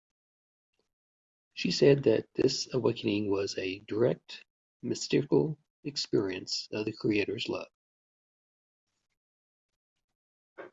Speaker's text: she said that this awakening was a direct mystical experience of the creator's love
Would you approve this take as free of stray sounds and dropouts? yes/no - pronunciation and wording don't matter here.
yes